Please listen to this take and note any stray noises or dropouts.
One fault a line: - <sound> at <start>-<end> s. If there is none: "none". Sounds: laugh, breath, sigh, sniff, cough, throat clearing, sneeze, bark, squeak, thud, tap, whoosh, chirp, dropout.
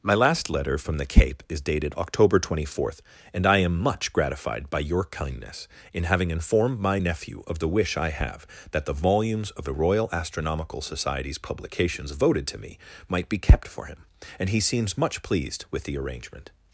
none